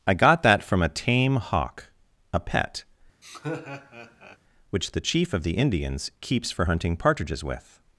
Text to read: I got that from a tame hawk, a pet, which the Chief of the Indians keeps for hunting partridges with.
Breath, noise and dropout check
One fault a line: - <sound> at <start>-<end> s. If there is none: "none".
- laugh at 3.2-4.4 s